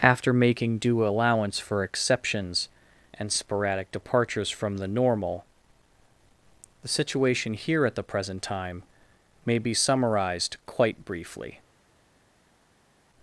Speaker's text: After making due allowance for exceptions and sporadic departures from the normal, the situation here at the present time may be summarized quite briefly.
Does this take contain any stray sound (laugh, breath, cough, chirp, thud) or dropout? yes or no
no